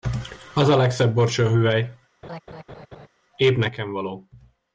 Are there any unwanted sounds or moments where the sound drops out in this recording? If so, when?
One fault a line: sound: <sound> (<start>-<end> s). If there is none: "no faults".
sound: laugh (2.2-3.1 s)